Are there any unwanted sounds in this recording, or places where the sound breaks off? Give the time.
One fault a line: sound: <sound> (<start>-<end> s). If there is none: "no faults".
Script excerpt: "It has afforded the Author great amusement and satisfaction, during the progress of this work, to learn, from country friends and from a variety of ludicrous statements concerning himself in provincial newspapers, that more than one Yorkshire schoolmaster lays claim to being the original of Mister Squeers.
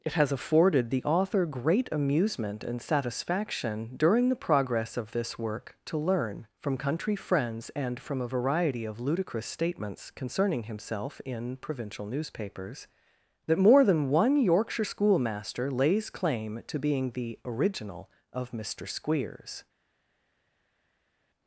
no faults